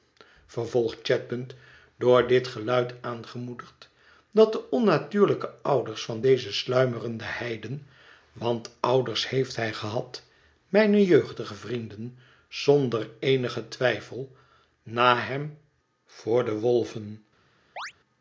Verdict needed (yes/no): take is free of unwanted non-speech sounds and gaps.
no